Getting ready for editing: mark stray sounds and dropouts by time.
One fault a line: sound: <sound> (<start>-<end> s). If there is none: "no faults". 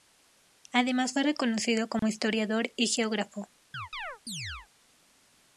sound: dropout (2.0-2.0 s)
sound: chirp (3.7-4.7 s)